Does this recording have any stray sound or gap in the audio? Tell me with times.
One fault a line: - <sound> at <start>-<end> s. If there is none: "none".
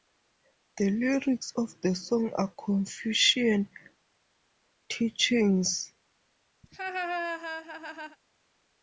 - laugh at 6.6-8.2 s